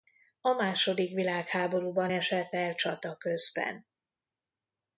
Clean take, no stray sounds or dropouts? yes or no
yes